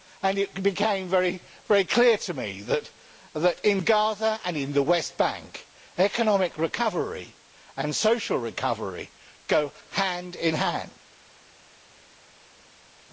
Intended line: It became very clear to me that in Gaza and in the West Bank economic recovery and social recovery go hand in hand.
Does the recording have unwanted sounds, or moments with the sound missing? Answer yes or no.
no